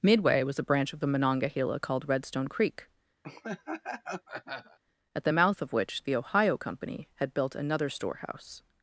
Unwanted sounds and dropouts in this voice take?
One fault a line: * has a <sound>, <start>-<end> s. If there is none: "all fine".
* has a laugh, 3.2-4.8 s